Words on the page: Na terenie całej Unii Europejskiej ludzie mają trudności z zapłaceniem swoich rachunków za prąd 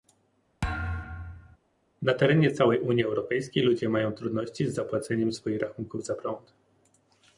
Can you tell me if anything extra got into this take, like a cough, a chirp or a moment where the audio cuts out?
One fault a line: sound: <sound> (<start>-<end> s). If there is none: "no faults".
sound: thud (0.6-1.6 s)